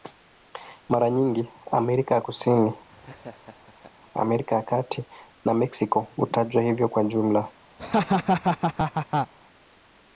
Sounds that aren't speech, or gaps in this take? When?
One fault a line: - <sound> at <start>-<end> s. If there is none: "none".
- laugh at 2.9-3.9 s
- laugh at 7.8-9.3 s